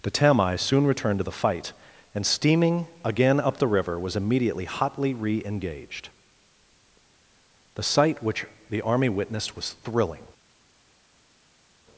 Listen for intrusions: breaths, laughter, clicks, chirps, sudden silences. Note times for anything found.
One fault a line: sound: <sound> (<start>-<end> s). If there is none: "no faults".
no faults